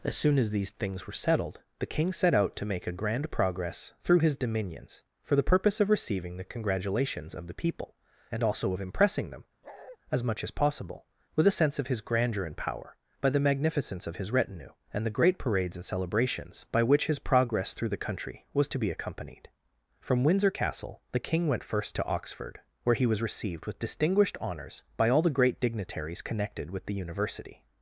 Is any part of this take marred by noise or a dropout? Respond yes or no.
yes